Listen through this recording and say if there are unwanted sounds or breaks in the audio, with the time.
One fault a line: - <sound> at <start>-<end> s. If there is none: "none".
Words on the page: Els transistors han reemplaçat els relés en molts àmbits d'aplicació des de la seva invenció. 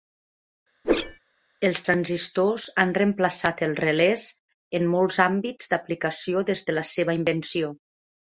- whoosh at 0.8-1.2 s